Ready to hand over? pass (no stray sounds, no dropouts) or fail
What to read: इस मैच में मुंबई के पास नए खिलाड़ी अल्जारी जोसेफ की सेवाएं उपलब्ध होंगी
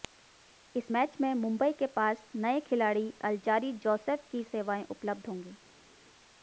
pass